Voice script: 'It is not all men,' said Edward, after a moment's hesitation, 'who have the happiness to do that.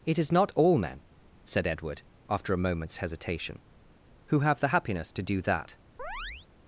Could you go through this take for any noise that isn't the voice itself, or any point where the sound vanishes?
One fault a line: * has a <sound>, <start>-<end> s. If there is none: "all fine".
* has a chirp, 6.0-6.5 s